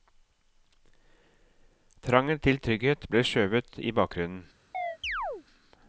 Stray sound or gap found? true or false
true